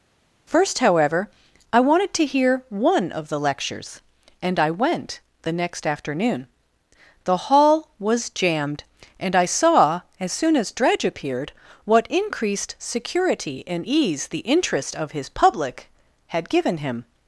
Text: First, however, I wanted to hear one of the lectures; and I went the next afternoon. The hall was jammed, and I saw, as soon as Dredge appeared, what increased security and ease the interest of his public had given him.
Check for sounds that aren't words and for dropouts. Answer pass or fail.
pass